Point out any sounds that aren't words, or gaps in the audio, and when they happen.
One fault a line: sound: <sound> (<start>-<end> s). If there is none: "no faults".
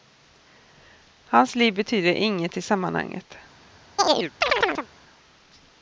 sound: chirp (4.0-4.9 s)